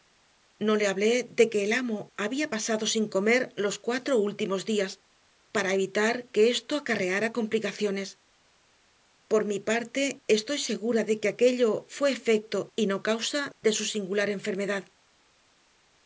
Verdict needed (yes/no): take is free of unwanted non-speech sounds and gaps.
yes